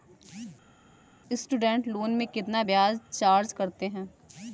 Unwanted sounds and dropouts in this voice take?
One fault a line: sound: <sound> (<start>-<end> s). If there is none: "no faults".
no faults